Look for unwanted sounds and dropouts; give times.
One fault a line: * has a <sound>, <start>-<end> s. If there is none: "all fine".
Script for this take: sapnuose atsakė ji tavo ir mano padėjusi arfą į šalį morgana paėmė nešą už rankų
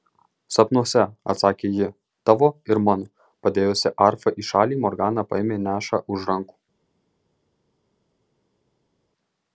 all fine